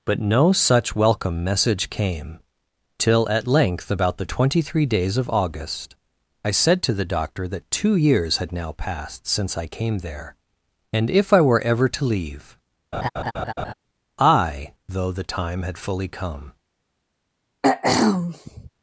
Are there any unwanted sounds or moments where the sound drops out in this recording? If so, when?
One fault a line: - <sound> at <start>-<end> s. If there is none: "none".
- laugh at 12.9-13.7 s
- throat clearing at 17.6-18.7 s